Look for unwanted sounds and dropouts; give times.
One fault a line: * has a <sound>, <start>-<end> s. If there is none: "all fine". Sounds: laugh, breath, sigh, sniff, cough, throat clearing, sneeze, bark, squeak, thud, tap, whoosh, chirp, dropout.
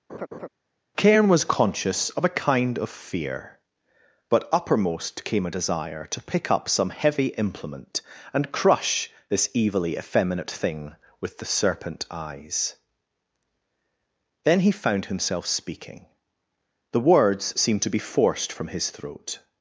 * has a laugh, 0.1-0.5 s